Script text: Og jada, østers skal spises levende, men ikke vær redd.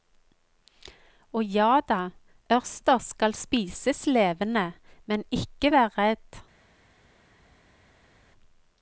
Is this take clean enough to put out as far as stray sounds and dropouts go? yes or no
yes